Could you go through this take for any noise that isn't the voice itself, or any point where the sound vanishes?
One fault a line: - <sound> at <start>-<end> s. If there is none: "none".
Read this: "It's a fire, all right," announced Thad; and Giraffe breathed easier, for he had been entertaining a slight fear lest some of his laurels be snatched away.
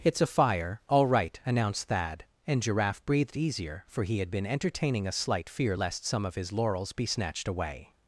none